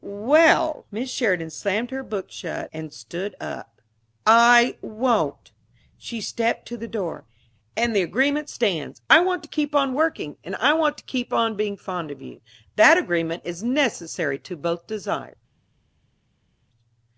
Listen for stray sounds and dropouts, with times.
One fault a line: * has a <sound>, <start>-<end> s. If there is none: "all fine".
all fine